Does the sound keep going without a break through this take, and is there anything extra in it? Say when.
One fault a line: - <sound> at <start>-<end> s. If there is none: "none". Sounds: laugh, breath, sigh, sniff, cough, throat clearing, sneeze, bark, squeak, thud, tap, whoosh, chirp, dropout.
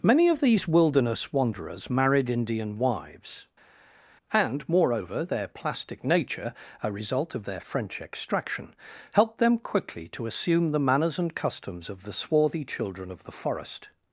none